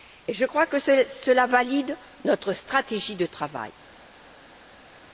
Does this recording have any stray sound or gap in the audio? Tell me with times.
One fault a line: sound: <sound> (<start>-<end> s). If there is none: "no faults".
no faults